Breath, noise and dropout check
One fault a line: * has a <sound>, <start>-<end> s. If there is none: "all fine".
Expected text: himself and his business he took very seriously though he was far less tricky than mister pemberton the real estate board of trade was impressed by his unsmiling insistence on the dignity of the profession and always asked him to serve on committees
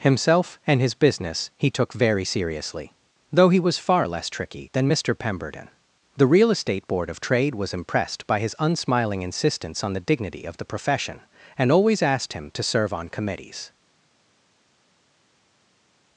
all fine